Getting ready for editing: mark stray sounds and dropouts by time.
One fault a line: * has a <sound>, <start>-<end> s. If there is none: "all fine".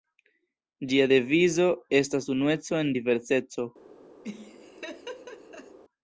* has a laugh, 4.2-5.8 s